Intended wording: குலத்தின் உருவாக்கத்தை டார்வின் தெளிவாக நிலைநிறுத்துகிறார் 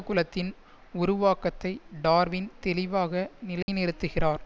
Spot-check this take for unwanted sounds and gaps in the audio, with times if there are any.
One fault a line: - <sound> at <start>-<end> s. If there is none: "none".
- dropout at 3.6-3.7 s